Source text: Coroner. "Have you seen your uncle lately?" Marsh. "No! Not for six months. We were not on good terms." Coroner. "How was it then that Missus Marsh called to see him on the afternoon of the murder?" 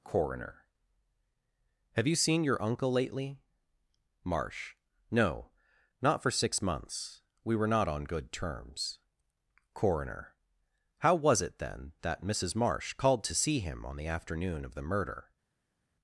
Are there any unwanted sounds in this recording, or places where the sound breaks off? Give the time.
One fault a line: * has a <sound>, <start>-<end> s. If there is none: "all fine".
all fine